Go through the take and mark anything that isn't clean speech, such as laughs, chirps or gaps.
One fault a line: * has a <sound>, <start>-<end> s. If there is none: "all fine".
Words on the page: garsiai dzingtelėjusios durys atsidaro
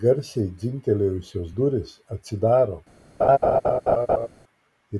* has a laugh, 3.2-4.3 s